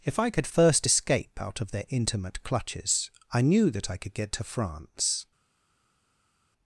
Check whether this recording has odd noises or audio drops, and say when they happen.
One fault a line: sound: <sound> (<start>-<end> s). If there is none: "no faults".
no faults